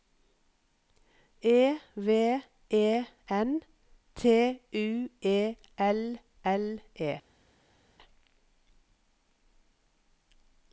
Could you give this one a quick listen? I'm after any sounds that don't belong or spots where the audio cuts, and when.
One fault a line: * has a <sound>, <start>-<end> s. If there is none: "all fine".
all fine